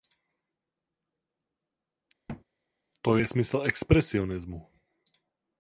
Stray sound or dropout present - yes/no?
yes